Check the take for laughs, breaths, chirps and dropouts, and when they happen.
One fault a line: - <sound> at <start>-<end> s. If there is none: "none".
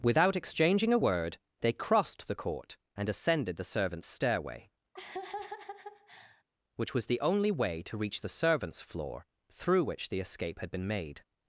- laugh at 4.9-6.4 s